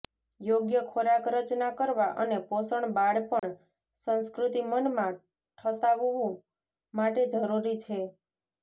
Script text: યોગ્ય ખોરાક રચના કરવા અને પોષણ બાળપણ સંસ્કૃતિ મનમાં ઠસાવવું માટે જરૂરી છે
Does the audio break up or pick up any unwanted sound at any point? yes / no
yes